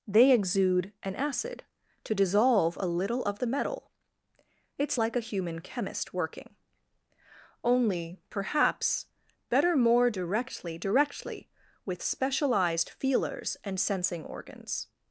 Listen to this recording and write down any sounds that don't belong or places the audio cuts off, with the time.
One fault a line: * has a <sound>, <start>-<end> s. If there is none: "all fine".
all fine